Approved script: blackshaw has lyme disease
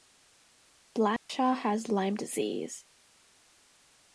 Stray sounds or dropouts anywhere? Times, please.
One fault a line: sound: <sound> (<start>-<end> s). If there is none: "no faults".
sound: dropout (1.2-1.3 s)